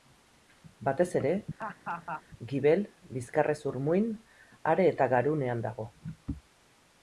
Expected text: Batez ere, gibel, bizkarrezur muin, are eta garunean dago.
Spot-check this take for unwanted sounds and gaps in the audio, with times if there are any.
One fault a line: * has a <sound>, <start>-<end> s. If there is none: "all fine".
* has a laugh, 1.6-2.2 s